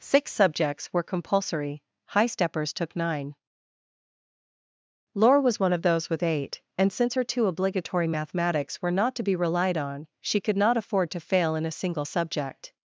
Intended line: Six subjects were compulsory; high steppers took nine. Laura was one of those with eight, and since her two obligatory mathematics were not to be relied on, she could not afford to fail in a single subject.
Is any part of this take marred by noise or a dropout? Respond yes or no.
no